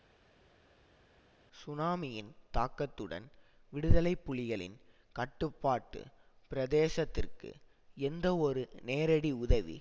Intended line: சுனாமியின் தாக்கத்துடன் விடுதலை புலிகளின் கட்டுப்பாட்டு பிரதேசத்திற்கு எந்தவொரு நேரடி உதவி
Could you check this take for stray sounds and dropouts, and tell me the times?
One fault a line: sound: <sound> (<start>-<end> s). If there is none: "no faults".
no faults